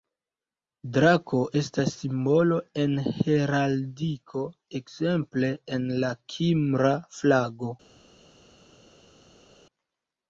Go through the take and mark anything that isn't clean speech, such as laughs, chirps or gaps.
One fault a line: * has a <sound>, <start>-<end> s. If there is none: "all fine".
all fine